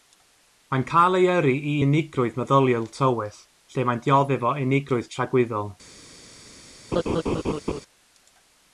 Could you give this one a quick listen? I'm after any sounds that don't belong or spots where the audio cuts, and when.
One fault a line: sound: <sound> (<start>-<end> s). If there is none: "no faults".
sound: laugh (6.9-7.8 s)